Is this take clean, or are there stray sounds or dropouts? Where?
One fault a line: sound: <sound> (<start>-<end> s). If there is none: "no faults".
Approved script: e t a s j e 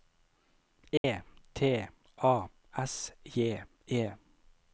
sound: dropout (1.0-1.0 s)